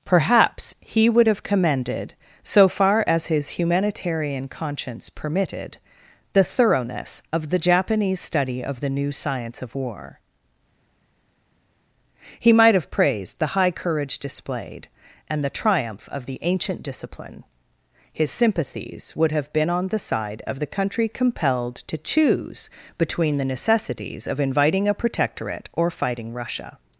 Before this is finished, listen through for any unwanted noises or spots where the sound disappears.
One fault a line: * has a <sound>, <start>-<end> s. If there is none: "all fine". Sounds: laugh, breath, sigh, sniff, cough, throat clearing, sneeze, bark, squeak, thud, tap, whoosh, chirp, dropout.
all fine